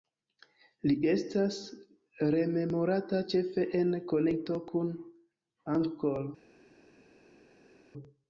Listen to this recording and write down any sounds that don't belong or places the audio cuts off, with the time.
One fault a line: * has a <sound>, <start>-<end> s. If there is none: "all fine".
all fine